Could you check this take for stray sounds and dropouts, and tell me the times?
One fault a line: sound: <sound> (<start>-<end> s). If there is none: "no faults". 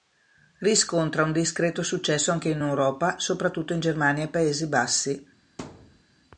sound: thud (5.6-6.0 s)